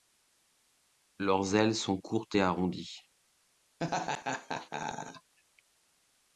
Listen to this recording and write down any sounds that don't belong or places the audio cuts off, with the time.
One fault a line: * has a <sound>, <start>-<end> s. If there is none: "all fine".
* has a laugh, 3.8-5.3 s